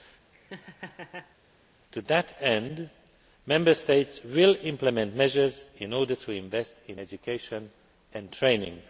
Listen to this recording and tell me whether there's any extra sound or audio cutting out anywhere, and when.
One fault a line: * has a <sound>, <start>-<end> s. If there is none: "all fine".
* has a laugh, 0.3-1.4 s